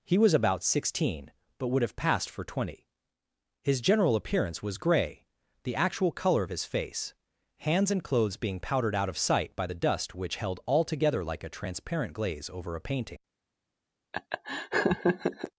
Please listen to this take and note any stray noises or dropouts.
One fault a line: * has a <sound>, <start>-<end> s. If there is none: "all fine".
* has a laugh, 14.1-15.5 s